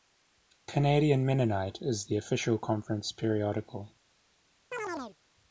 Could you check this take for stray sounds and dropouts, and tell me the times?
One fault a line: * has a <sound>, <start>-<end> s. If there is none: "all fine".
* has a chirp, 4.7-5.2 s